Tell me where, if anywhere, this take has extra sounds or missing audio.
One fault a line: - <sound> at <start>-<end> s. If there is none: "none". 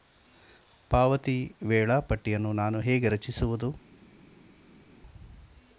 none